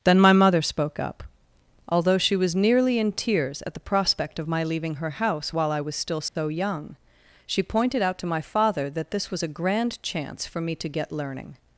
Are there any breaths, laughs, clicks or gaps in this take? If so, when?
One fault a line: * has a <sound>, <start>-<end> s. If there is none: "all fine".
* has a dropout, 6.3-6.4 s